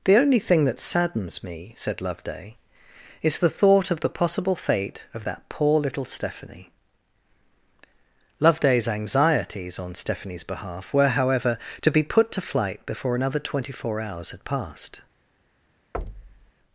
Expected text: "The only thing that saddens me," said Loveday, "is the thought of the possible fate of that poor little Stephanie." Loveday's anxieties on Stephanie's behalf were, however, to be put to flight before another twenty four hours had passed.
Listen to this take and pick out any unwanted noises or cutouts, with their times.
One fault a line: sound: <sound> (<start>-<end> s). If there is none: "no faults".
sound: thud (15.9-16.5 s)